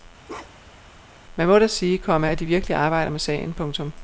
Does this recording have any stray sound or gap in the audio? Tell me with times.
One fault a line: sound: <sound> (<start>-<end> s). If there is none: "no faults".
sound: bark (0.3-0.9 s)